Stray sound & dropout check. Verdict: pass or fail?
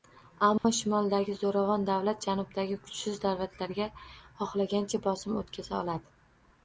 fail